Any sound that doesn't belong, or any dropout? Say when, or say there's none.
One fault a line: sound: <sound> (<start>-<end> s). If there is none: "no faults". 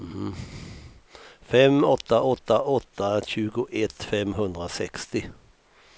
no faults